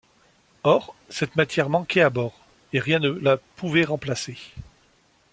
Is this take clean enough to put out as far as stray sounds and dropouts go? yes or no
yes